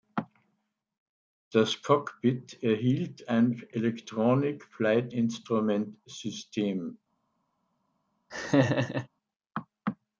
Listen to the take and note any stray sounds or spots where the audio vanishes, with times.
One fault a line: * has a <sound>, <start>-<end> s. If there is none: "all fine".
* has a laugh, 8.3-9.1 s